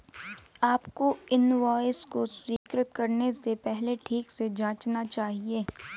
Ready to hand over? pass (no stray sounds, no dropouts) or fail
fail